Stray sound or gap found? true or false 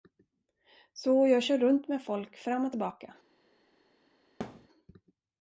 true